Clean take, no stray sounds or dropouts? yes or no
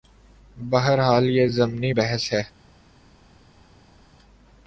yes